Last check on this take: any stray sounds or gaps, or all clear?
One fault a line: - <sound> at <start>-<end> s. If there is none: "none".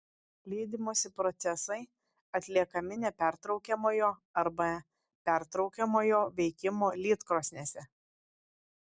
none